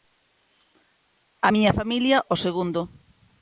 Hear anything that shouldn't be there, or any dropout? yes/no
no